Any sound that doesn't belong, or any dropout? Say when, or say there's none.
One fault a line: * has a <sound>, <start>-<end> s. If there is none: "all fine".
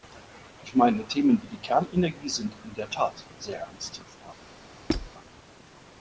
* has a squeak, 4.9-5.1 s